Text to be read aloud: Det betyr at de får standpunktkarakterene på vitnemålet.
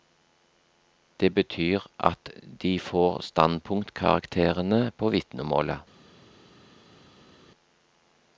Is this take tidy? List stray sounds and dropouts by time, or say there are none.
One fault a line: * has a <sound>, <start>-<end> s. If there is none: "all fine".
all fine